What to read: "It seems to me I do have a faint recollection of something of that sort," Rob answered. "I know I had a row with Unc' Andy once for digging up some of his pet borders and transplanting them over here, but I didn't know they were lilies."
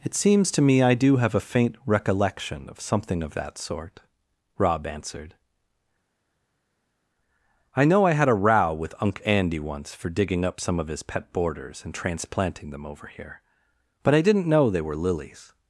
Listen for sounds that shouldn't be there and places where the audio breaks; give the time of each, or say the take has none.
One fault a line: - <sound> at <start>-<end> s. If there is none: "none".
none